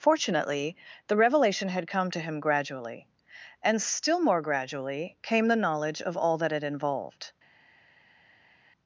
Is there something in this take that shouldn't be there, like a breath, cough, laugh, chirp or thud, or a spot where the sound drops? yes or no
no